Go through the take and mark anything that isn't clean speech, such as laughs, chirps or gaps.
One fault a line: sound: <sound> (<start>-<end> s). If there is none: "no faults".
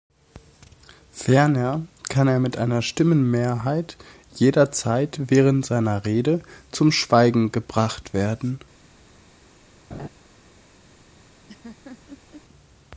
sound: laugh (9.9-10.1 s)
sound: laugh (11.5-12.4 s)